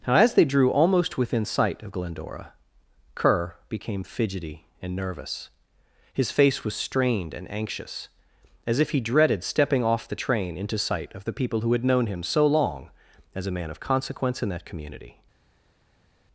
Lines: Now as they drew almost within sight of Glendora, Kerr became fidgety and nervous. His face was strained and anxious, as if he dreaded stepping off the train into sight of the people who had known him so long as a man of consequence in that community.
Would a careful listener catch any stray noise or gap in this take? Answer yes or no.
no